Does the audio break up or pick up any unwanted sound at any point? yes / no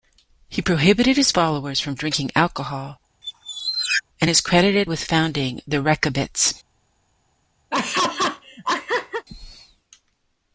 yes